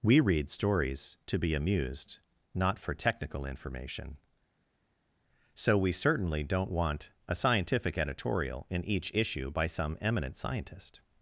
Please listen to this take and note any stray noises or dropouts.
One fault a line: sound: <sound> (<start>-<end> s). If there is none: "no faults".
no faults